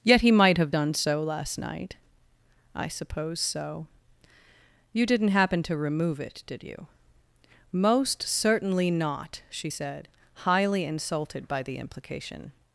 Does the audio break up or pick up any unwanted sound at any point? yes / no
no